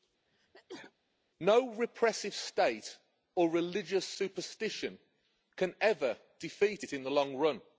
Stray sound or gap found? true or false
true